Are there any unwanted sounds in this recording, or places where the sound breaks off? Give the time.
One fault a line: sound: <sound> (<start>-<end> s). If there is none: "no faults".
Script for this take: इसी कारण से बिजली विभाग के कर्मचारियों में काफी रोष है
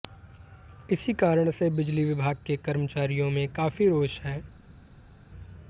no faults